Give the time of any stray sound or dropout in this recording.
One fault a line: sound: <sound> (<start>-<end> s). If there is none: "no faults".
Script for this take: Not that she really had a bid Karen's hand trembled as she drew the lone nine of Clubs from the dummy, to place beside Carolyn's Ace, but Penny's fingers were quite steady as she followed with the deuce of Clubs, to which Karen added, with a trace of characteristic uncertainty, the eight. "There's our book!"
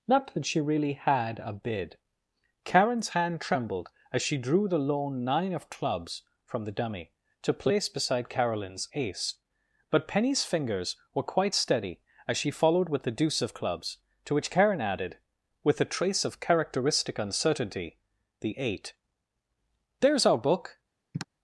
sound: sigh (21.1-21.3 s)